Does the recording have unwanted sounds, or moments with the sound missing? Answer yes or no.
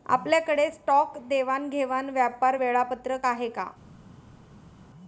no